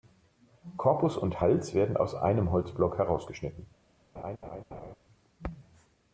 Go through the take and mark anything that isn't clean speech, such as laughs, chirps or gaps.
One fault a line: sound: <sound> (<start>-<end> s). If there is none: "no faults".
sound: laugh (4.2-5.0 s)